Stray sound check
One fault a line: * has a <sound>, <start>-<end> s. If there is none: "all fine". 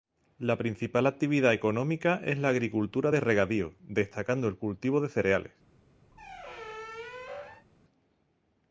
* has a squeak, 6.1-7.7 s